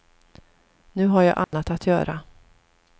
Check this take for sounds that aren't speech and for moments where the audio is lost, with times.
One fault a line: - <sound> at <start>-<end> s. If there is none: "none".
- dropout at 1.4-1.5 s